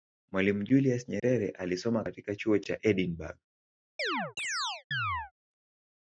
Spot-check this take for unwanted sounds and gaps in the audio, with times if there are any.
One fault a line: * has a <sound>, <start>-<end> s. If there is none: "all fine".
* has a dropout, 1.2-1.2 s
* has a chirp, 4.0-5.3 s